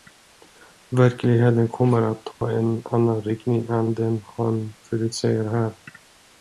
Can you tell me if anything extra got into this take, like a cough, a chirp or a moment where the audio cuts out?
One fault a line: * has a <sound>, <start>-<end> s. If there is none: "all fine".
* has a dropout, 2.3-2.4 s